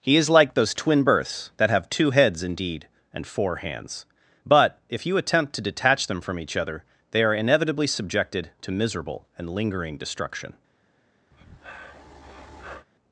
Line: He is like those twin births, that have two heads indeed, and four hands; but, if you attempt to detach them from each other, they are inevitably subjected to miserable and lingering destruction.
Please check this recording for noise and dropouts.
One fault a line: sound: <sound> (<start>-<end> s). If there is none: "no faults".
sound: breath (11.3-12.9 s)